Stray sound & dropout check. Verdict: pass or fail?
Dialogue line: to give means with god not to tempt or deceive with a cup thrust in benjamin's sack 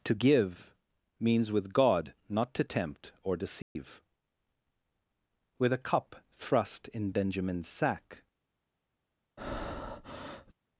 fail